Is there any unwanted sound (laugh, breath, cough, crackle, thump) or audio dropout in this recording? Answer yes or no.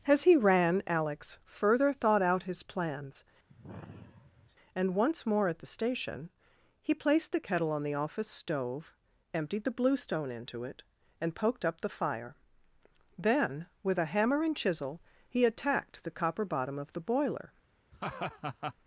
yes